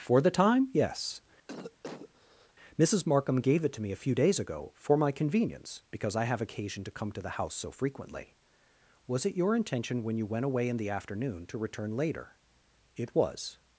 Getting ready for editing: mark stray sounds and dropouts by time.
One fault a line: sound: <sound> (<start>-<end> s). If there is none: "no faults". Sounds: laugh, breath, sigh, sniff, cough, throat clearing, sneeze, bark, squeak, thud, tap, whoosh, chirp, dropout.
sound: cough (1.5-2.5 s)